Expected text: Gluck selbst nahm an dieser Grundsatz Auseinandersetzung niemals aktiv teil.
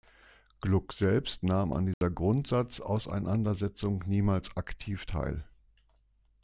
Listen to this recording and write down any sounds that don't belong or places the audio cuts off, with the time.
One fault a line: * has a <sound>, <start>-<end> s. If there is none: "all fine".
* has a dropout, 1.9-2.0 s